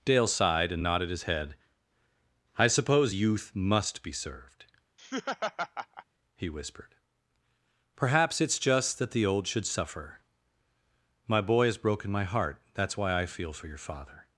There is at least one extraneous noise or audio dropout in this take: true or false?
true